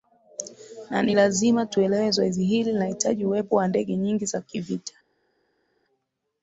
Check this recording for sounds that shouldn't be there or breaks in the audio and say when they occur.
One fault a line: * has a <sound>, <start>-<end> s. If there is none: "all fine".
all fine